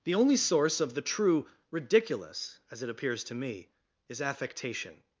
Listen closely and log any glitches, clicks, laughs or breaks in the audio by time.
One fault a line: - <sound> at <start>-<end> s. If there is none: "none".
none